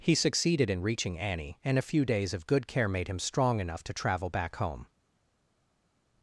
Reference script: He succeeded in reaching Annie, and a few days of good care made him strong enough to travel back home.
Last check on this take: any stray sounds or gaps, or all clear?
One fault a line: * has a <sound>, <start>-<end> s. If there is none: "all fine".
all fine